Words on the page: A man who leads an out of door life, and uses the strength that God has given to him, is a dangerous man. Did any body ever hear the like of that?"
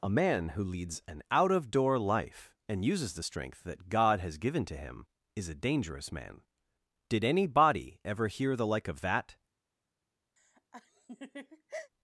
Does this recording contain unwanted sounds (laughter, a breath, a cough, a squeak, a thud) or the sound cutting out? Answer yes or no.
yes